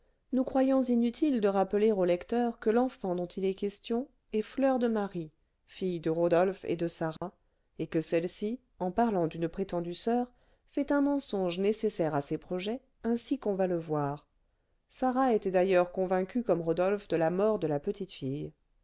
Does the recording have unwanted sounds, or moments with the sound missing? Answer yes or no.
yes